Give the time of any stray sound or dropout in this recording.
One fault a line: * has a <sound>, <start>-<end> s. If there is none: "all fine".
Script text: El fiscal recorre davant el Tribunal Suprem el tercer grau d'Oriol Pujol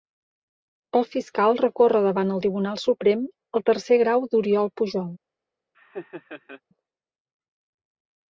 * has a laugh, 5.7-6.6 s